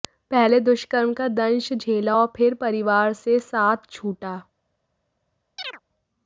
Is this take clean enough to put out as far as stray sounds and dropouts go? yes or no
no